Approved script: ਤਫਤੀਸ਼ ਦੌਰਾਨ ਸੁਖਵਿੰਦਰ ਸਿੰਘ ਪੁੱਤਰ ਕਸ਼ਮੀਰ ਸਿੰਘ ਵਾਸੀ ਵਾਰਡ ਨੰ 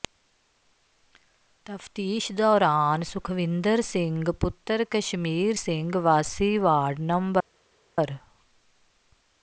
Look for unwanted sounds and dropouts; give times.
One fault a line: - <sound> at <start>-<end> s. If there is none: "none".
none